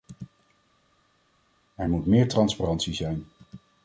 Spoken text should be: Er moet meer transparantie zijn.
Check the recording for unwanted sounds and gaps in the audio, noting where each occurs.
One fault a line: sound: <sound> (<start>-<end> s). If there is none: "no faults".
no faults